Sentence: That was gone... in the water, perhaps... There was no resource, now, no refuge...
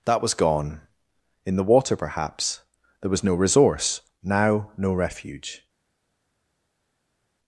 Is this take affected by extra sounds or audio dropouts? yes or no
no